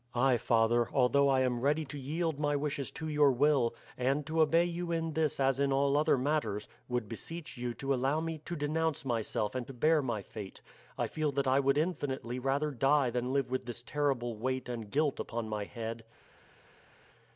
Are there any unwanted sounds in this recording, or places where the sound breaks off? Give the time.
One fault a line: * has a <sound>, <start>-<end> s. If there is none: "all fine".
all fine